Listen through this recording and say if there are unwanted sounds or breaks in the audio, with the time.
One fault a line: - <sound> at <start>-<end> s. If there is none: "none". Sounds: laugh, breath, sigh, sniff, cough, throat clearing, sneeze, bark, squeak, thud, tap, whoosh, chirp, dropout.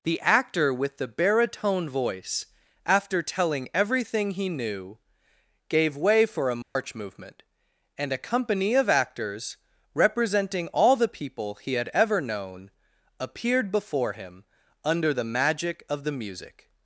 - dropout at 6.6-6.8 s